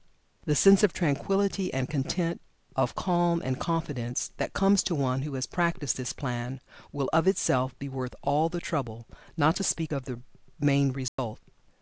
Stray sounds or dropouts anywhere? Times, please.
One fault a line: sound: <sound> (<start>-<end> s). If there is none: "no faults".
sound: dropout (11.1-11.2 s)